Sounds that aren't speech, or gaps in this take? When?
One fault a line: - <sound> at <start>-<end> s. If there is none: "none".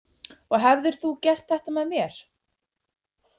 none